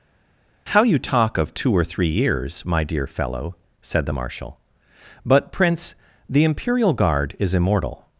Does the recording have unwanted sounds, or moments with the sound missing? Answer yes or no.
no